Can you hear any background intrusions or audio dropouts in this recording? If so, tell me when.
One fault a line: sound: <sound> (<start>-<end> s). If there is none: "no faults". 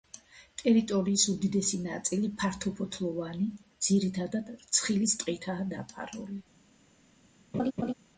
sound: laugh (7.5-7.9 s)